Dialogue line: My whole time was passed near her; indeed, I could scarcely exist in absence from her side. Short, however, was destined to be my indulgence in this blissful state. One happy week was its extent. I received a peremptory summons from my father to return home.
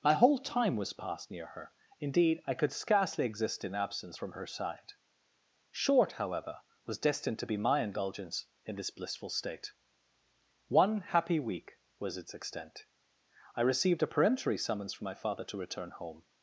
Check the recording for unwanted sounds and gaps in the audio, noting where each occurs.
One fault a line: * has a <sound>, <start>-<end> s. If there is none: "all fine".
all fine